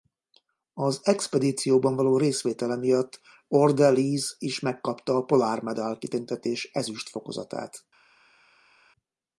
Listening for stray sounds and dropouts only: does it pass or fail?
pass